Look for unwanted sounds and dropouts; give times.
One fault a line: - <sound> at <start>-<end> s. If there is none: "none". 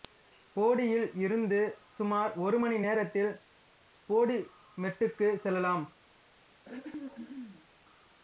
- throat clearing at 6.6-7.7 s